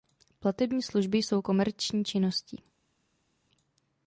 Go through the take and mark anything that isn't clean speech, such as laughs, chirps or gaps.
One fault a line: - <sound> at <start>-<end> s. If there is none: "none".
none